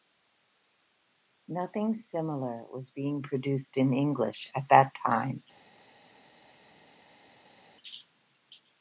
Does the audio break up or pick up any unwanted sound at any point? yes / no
no